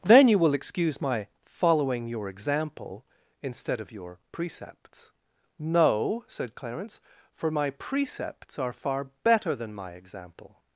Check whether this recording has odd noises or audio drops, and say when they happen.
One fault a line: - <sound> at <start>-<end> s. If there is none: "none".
none